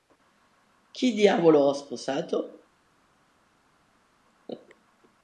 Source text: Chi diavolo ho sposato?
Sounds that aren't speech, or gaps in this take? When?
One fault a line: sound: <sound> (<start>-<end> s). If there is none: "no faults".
no faults